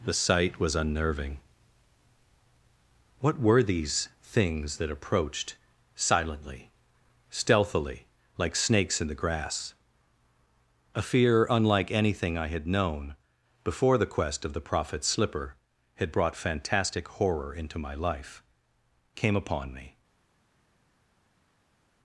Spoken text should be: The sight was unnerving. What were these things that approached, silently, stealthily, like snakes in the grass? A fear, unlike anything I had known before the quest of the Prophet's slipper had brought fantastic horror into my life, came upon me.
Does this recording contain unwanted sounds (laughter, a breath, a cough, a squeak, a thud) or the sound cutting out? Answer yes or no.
no